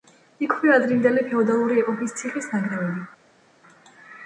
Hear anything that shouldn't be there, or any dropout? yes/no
no